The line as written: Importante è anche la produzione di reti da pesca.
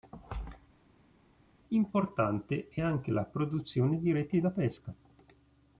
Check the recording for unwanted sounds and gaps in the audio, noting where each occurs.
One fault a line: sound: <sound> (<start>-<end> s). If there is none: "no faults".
no faults